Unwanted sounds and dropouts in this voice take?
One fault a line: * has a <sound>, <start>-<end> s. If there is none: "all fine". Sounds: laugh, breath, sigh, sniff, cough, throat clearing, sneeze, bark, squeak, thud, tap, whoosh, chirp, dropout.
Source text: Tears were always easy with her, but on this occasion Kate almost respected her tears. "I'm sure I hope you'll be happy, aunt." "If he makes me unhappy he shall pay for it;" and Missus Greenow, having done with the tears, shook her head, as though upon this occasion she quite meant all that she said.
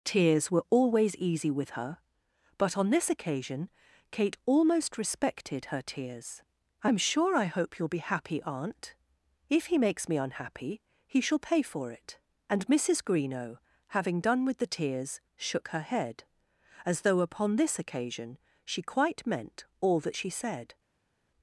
all fine